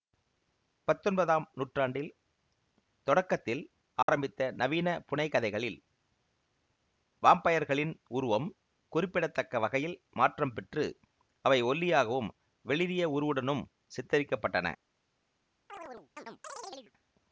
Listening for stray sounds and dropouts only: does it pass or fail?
fail